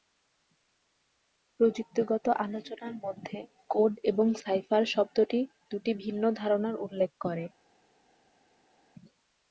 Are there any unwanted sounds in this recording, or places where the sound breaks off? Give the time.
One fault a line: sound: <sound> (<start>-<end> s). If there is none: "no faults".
no faults